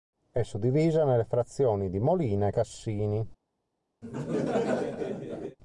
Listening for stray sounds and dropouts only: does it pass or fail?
fail